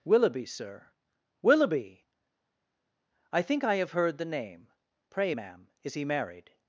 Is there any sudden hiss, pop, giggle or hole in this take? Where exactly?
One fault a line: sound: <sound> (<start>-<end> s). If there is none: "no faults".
no faults